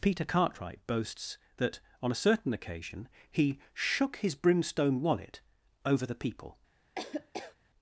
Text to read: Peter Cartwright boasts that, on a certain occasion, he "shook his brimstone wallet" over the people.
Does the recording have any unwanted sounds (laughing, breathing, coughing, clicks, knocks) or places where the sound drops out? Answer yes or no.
yes